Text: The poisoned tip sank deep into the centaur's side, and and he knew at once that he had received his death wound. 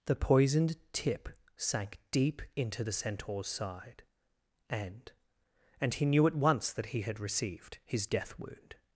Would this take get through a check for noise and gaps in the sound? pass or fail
pass